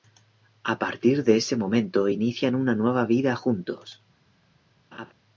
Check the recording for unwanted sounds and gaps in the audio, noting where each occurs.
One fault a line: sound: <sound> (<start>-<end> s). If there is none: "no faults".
sound: laugh (4.9-5.1 s)